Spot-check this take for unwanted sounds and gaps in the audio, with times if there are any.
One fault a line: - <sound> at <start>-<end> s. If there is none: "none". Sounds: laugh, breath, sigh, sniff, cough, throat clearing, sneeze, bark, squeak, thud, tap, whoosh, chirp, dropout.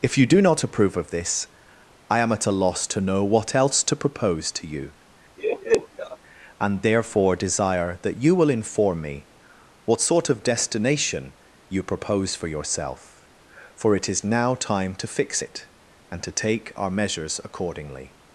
- laugh at 5.4-6.2 s